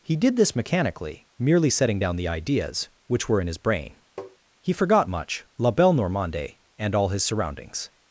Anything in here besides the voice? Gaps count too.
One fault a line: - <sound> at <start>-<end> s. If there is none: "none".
- tap at 4.2-4.4 s